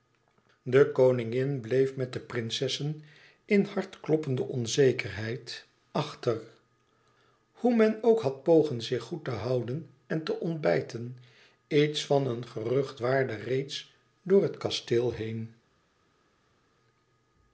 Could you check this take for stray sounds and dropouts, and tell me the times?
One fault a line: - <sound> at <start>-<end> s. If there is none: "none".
none